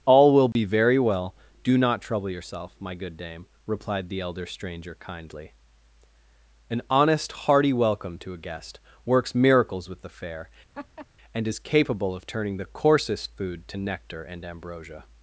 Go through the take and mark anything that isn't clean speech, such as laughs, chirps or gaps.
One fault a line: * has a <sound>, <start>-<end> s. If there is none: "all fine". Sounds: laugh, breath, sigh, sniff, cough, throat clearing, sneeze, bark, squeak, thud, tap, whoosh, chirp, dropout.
* has a dropout, 0.5-0.6 s
* has a laugh, 10.7-11.1 s